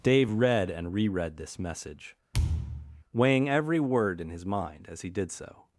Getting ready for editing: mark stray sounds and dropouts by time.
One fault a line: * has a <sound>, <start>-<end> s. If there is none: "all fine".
* has a thud, 2.3-3.0 s